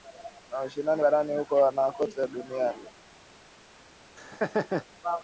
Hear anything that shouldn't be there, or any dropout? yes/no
yes